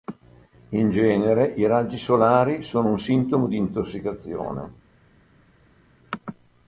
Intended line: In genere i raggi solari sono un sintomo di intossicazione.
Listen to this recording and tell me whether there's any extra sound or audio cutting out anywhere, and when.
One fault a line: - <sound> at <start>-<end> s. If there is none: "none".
none